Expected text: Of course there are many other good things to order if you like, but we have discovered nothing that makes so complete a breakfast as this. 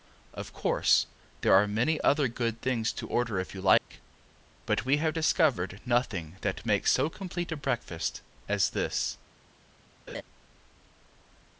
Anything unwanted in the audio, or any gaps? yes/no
yes